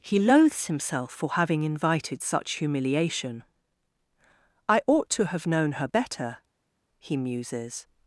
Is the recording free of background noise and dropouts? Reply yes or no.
yes